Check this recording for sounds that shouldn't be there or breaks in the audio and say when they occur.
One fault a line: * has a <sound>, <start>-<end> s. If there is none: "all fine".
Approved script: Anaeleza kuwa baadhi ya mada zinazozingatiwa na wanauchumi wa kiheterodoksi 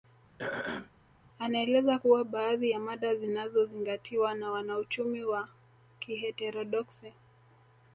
* has a throat clearing, 0.4-0.9 s